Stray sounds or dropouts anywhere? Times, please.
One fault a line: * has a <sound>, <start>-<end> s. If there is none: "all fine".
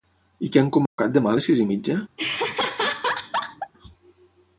* has a dropout, 0.9-1.0 s
* has a laugh, 2.2-3.7 s